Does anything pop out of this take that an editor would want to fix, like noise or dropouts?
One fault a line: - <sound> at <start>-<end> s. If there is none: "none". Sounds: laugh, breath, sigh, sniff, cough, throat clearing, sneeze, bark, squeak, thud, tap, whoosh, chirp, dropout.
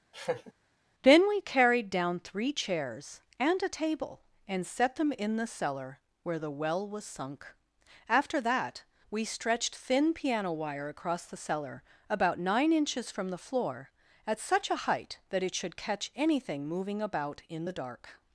- laugh at 0.1-0.5 s